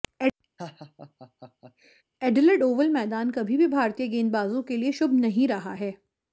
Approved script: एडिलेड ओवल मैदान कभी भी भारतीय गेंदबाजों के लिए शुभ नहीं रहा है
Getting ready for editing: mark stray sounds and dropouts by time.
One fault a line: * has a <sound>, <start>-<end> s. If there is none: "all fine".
* has a laugh, 0.6-2.0 s